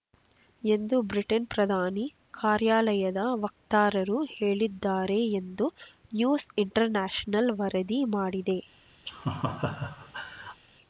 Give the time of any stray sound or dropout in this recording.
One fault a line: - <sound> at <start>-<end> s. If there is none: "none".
- laugh at 9.1-10.6 s